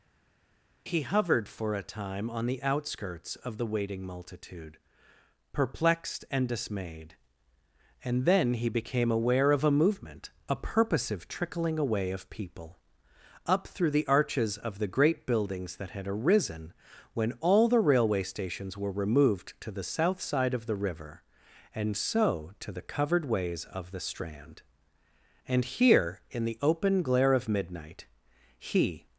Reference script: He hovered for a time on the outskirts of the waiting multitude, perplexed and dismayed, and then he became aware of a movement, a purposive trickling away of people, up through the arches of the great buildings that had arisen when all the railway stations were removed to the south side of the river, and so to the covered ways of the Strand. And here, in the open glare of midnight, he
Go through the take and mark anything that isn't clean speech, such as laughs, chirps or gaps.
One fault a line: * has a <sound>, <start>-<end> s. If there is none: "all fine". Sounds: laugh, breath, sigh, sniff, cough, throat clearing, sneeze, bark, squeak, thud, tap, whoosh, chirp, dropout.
all fine